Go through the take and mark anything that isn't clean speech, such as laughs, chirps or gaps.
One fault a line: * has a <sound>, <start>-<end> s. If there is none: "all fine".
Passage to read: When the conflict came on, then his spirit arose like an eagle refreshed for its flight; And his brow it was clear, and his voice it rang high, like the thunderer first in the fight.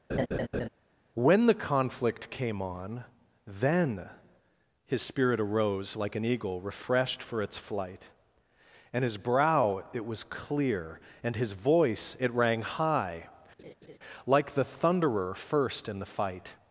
* has a laugh, 0.1-0.7 s
* has a laugh, 13.6-14.0 s